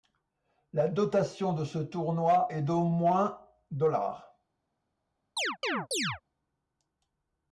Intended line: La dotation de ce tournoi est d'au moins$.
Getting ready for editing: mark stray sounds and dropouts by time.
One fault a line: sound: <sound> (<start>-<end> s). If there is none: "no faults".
sound: chirp (5.4-6.2 s)